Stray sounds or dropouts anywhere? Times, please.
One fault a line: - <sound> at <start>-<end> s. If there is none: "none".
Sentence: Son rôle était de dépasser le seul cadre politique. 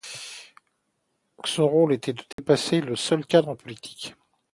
- dropout at 2.3-2.4 s